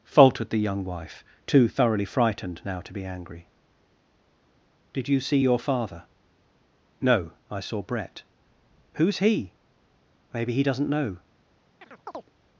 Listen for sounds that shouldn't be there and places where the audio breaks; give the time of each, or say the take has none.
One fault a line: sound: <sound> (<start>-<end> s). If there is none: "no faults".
sound: chirp (11.8-12.3 s)